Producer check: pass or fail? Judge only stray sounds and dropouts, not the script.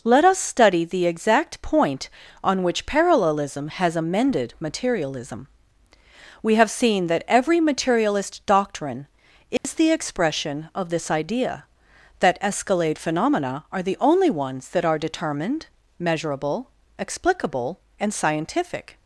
fail